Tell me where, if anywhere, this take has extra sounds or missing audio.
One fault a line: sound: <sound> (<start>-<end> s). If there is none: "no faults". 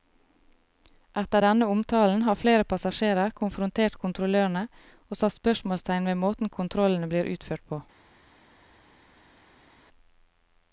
no faults